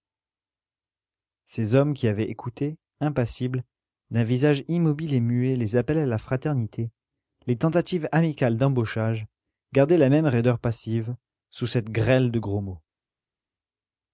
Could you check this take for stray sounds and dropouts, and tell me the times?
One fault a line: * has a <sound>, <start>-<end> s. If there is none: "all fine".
all fine